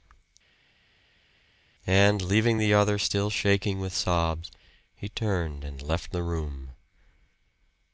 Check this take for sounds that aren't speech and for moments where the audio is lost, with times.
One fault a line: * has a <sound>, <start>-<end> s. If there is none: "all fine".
all fine